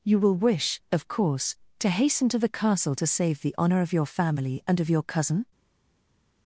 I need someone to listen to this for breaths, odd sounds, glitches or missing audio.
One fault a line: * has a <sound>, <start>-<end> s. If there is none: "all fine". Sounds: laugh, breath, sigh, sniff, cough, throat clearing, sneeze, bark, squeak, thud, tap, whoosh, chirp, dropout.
all fine